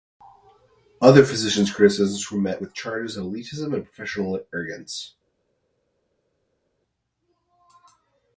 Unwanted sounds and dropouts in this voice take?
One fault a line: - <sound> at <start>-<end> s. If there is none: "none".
none